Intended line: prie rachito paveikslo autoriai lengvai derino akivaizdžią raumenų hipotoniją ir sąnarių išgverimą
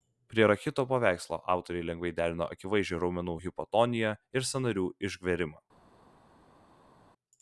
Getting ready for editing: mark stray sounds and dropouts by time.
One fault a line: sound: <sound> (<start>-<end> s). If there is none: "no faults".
no faults